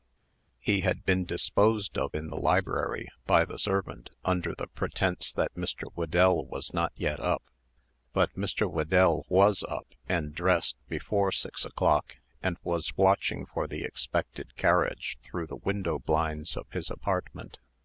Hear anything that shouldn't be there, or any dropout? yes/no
no